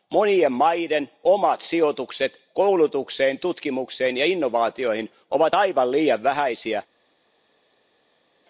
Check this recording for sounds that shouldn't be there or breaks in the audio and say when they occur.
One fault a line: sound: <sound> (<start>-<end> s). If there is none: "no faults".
no faults